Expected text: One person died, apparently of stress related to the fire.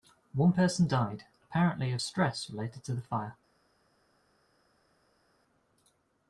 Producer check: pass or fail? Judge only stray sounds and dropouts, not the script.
pass